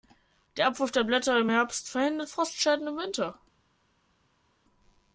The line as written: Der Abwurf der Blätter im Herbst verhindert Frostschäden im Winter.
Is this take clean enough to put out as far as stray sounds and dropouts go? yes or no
yes